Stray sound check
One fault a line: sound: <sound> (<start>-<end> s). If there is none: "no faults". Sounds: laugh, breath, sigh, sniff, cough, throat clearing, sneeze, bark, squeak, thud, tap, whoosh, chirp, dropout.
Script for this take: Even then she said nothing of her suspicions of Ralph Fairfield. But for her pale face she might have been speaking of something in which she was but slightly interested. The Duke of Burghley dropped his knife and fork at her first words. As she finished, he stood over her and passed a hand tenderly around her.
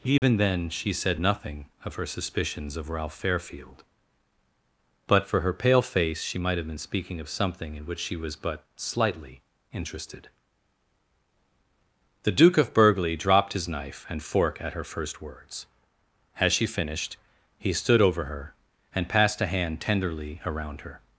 sound: dropout (0.2-0.2 s)